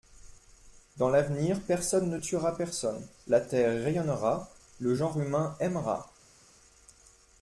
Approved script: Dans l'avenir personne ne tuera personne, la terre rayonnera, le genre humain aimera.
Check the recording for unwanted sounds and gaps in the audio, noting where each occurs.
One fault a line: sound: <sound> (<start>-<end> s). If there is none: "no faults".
no faults